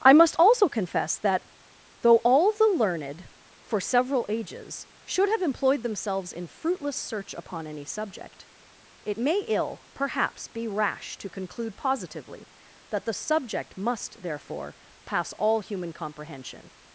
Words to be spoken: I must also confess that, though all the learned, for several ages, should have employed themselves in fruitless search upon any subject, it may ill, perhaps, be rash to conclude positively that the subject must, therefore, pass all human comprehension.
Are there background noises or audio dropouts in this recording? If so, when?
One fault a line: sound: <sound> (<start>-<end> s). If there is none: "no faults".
no faults